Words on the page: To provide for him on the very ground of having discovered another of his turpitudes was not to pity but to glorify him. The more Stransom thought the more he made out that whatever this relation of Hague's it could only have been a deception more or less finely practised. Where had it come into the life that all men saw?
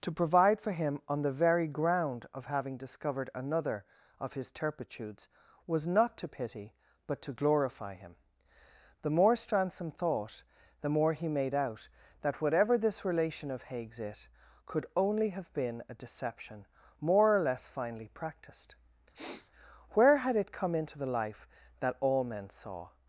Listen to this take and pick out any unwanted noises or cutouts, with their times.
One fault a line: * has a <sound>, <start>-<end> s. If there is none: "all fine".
* has a sniff, 19.1-19.5 s